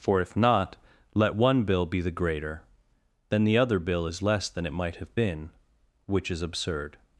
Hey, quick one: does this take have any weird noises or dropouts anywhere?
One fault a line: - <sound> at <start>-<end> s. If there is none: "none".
none